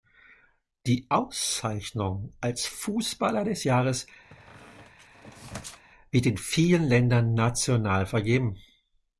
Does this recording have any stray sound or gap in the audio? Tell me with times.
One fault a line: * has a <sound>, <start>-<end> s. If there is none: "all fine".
* has a squeak, 4.3-5.8 s